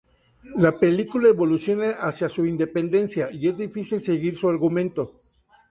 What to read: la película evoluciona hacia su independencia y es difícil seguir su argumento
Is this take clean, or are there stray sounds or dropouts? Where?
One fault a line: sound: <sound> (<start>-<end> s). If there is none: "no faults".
no faults